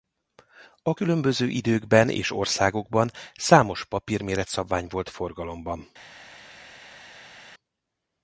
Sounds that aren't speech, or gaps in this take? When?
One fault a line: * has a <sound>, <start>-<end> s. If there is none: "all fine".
all fine